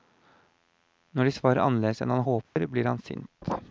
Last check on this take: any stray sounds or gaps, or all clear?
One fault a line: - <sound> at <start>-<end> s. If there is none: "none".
- dropout at 2.4-2.6 s